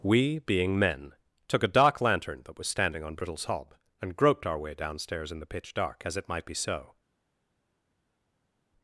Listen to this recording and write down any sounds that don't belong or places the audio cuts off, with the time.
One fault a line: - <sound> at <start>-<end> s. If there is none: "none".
none